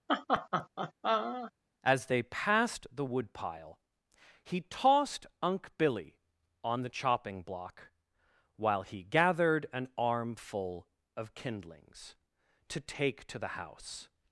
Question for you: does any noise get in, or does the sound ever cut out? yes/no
yes